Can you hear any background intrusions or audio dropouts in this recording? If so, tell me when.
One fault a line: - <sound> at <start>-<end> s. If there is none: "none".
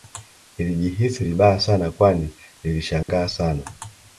- dropout at 3.0-3.1 s